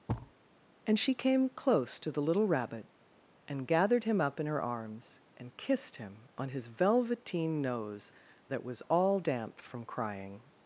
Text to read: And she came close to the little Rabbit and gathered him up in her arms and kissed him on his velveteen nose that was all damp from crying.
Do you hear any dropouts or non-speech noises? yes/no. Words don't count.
yes